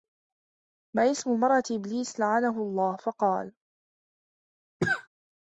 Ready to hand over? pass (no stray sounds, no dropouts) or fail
fail